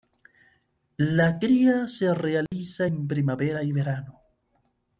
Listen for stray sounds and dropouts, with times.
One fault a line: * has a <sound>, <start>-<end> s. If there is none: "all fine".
* has a dropout, 2.5-2.5 s